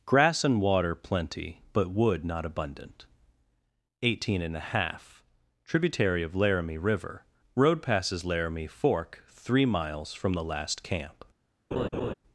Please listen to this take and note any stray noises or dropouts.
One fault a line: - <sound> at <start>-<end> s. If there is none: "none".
- laugh at 11.7-12.1 s